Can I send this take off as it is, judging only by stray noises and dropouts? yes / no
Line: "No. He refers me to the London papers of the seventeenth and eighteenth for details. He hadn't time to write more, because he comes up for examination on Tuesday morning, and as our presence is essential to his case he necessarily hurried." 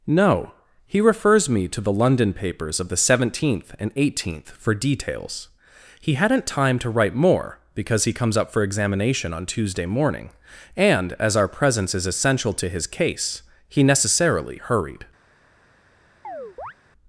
no